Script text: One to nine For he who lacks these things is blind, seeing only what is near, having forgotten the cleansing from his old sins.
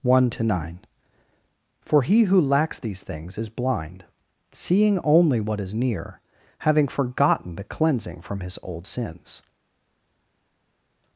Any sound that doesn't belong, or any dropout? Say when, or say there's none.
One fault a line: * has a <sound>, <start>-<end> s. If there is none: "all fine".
all fine